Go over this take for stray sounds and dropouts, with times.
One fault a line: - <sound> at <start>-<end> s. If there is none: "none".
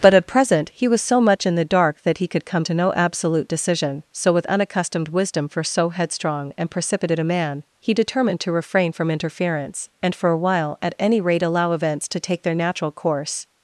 none